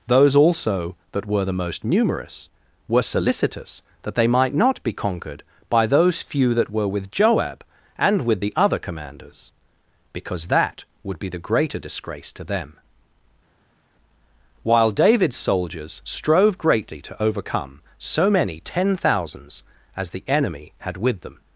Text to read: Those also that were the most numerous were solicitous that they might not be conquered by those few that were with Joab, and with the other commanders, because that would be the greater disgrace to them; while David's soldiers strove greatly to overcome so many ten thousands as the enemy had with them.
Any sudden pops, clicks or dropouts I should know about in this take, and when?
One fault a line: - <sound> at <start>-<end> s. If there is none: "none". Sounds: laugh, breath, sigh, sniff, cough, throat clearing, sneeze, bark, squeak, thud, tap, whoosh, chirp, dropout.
none